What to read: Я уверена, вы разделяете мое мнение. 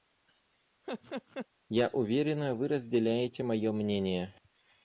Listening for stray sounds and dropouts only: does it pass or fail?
fail